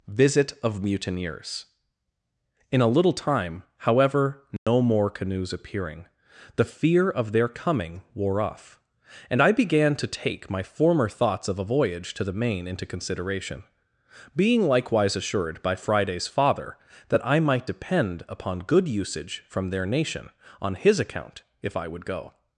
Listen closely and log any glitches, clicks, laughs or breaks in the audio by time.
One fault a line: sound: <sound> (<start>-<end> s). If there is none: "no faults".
sound: dropout (4.6-4.7 s)